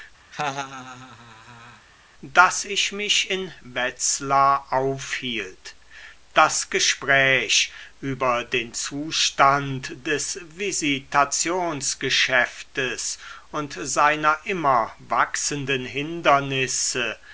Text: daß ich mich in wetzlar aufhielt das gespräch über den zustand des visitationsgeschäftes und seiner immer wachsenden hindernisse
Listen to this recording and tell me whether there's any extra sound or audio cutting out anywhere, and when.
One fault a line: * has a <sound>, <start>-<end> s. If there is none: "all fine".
* has a laugh, 0.3-1.9 s